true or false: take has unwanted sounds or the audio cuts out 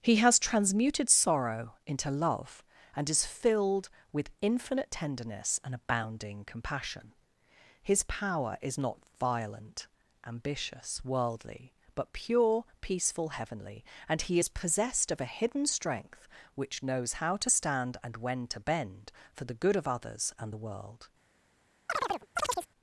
true